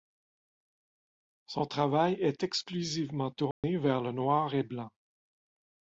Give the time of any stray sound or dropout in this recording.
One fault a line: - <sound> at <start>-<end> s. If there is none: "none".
- dropout at 3.5-3.6 s